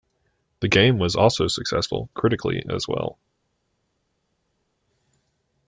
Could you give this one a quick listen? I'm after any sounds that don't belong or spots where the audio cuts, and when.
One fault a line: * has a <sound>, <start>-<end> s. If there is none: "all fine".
all fine